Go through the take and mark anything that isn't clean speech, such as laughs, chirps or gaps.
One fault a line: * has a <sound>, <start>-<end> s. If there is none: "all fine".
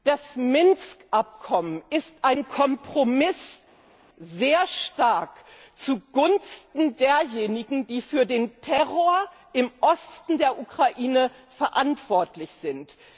all fine